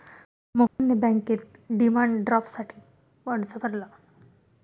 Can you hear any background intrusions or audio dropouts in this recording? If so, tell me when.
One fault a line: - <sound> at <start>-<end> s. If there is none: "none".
- dropout at 0.7-0.8 s